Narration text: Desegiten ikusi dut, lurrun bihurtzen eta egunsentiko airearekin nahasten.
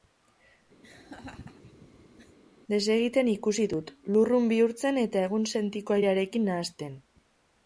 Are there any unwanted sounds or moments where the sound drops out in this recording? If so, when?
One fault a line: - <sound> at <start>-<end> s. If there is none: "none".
- laugh at 0.8-2.4 s